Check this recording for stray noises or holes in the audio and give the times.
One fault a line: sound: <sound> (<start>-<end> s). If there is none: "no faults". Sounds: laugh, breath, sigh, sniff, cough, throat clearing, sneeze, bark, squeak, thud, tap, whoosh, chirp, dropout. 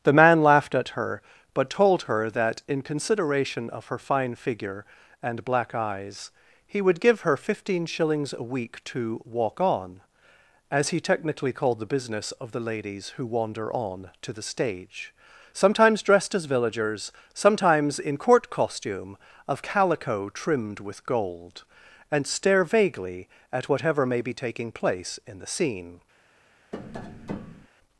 sound: tap (26.7-27.7 s)